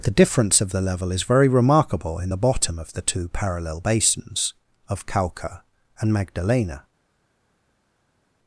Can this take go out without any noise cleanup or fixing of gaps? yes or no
yes